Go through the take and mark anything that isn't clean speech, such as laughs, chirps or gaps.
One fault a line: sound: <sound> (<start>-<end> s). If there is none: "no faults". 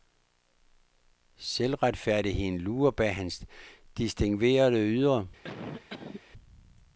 sound: cough (5.4-6.2 s)